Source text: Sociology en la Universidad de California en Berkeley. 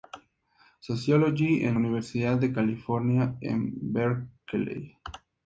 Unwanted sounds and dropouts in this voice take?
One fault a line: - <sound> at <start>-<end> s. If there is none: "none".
none